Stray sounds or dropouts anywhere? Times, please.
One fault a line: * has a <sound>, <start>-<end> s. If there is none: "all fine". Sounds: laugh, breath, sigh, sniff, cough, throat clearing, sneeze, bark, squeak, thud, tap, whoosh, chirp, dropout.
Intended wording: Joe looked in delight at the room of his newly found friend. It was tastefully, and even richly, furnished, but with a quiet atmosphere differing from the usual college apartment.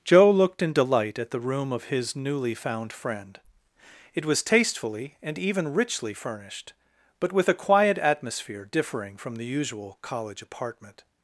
all fine